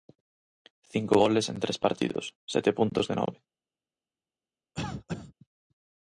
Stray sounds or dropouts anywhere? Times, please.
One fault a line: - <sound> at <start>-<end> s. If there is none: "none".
- cough at 4.7-5.3 s